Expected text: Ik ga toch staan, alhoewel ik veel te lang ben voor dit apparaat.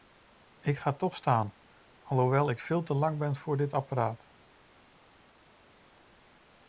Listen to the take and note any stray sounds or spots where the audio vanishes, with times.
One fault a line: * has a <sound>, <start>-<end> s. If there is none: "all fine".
all fine